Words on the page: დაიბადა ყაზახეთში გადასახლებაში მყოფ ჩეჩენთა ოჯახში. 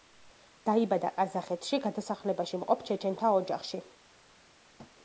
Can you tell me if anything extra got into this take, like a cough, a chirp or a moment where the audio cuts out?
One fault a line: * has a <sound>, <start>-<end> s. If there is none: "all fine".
* has a thud, 4.8-5.0 s